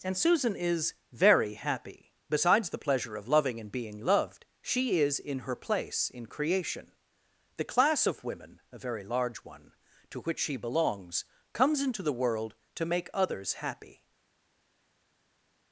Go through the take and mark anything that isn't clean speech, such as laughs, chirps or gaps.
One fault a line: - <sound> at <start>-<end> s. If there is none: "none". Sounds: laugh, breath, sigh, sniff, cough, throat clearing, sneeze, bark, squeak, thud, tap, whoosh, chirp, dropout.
none